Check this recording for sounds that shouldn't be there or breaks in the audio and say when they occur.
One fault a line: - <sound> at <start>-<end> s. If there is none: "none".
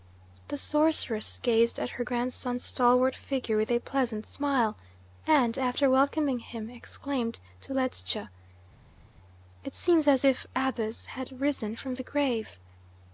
none